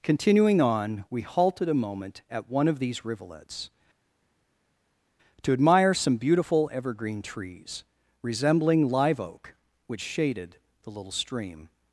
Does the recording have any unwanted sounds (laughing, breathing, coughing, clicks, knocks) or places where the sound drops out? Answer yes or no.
no